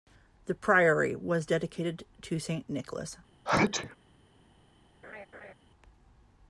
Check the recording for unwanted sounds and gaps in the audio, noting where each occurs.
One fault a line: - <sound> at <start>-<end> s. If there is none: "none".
- sneeze at 3.5-4.0 s
- laugh at 5.0-5.5 s